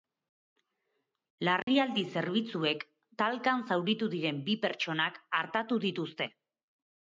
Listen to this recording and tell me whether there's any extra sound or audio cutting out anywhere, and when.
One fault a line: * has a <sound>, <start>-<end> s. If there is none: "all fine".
* has a dropout, 1.6-1.7 s